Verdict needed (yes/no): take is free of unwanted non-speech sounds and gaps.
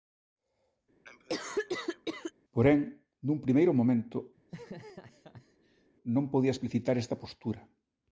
no